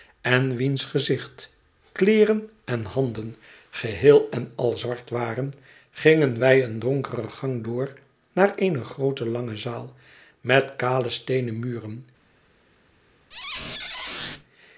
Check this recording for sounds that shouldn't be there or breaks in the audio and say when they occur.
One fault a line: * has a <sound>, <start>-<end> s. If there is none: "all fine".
* has a squeak, 13.3-14.4 s